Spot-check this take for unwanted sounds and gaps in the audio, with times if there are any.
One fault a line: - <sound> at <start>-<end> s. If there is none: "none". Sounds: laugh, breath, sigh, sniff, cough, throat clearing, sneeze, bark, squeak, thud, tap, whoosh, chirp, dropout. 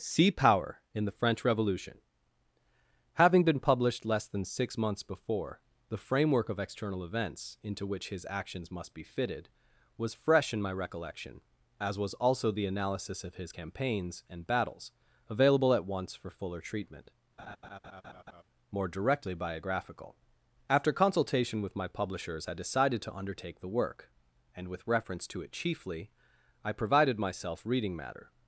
- laugh at 17.4-18.4 s